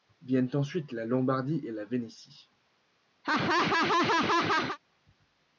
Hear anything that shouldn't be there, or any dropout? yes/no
yes